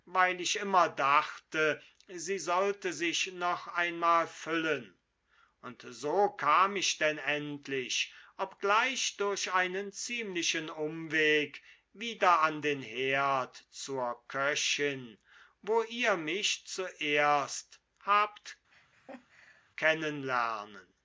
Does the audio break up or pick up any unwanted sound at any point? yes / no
yes